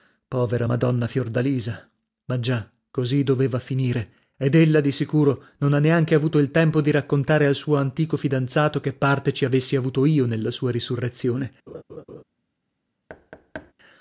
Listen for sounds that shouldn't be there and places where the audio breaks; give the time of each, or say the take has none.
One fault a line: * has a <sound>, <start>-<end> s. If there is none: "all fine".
* has a laugh, 11.7-12.2 s
* has a thud, 13.1-13.7 s